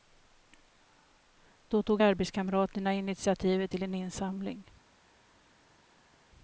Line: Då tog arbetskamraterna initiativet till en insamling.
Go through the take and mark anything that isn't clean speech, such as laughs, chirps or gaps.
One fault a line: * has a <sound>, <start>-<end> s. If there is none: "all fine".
all fine